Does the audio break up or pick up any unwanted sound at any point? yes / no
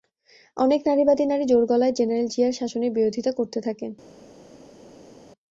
no